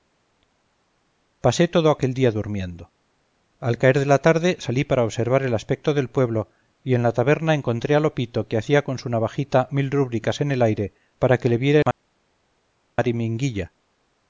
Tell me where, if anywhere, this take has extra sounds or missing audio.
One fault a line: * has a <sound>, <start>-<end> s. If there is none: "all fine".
all fine